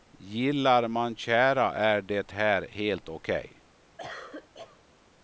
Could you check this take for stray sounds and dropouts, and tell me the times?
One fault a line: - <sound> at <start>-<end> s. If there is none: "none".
- cough at 4.0-4.8 s